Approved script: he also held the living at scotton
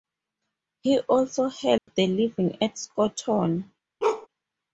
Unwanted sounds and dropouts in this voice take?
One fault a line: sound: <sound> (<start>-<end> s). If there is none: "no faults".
sound: dropout (1.8-1.9 s)
sound: bark (4.0-4.3 s)